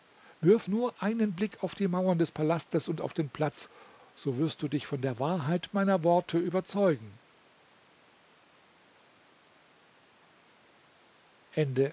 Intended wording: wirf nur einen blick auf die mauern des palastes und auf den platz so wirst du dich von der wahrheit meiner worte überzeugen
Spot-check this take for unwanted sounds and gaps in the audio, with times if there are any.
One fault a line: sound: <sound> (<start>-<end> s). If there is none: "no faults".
no faults